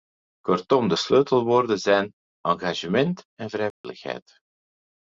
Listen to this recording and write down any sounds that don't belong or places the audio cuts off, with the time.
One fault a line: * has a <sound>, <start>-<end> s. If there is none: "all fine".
* has a dropout, 3.7-3.8 s